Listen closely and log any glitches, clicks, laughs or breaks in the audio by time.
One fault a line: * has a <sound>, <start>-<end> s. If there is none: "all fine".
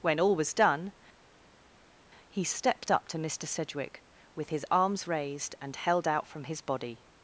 all fine